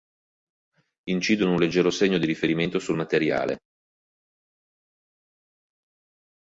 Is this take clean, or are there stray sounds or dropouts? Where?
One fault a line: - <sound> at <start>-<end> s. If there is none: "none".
none